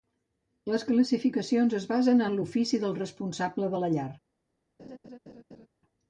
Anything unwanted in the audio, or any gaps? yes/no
yes